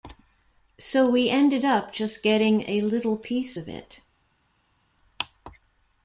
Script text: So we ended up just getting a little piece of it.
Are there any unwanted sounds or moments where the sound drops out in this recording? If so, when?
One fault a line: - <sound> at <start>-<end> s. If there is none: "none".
none